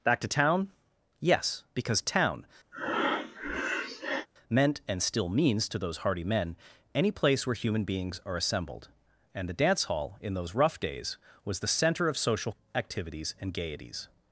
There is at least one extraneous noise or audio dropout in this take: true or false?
true